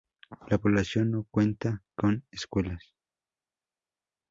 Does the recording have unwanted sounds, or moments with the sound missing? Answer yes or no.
no